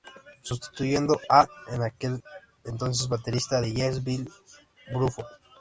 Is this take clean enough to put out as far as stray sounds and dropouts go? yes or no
yes